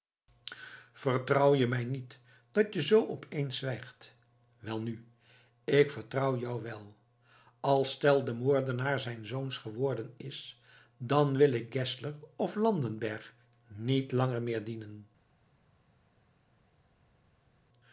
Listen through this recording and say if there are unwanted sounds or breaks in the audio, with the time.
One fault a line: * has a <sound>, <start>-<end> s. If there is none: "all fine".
all fine